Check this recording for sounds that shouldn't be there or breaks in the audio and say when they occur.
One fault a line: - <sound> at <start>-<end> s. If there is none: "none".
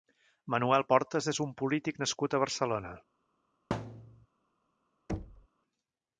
- thud at 3.7-4.3 s
- thud at 5.1-5.5 s